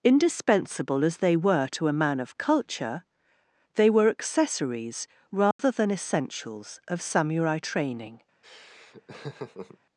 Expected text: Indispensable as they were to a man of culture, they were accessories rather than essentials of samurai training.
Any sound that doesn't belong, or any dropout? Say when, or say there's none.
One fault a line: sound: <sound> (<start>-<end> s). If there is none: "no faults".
sound: dropout (5.5-5.6 s)
sound: laugh (8.4-9.8 s)